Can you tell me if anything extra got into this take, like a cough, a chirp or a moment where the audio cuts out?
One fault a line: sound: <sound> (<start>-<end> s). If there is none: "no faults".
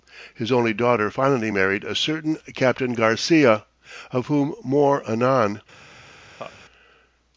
sound: laugh (6.4-6.6 s)